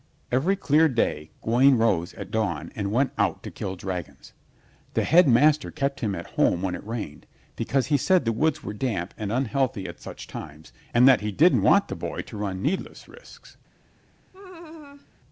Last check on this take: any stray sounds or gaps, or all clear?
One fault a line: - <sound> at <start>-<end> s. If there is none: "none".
- laugh at 14.3-15.1 s